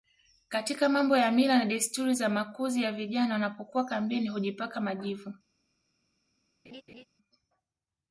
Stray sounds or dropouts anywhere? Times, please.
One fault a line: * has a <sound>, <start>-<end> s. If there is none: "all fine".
* has a laugh, 6.6-7.1 s